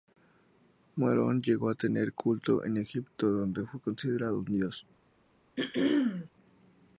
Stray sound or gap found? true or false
true